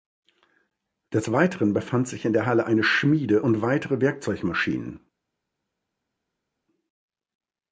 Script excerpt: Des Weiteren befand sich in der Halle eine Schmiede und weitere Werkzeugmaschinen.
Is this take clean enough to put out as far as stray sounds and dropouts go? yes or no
yes